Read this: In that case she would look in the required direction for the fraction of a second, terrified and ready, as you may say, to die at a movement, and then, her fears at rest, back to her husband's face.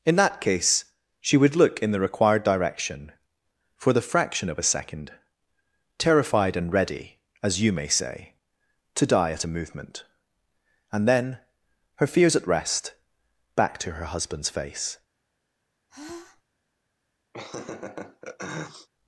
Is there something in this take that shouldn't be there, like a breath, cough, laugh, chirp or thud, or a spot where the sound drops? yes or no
yes